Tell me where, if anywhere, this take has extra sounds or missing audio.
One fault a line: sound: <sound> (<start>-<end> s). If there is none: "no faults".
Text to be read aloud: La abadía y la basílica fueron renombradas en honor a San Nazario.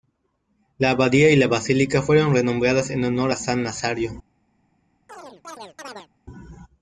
sound: chirp (5.1-6.1 s)